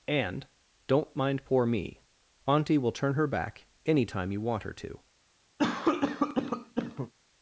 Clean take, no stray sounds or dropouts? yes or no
no